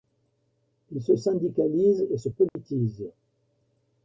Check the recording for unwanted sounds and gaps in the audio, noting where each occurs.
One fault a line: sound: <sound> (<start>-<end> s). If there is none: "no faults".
sound: dropout (2.5-2.6 s)